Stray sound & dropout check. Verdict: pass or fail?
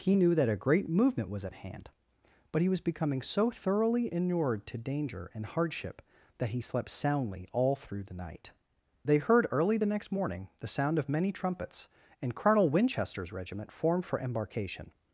pass